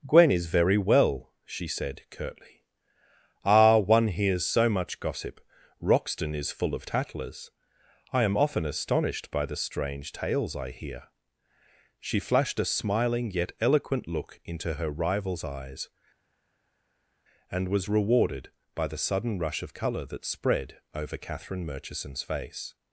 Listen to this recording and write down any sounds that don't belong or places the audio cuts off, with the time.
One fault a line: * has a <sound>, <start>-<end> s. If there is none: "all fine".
all fine